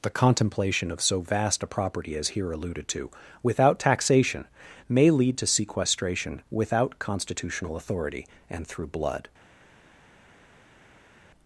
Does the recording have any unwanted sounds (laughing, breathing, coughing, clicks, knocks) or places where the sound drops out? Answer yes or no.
no